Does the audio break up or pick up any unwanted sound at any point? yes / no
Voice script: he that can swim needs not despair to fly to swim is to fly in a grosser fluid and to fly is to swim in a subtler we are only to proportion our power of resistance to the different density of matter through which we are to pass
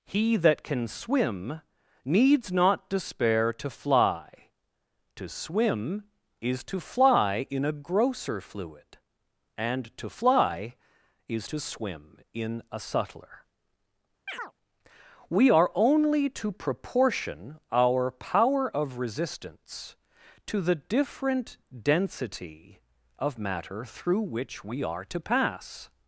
yes